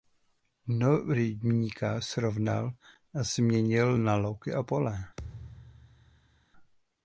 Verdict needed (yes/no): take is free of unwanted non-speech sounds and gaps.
no